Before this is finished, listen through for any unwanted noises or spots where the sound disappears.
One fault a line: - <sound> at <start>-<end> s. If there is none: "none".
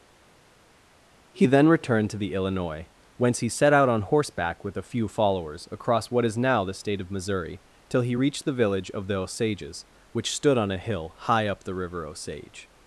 none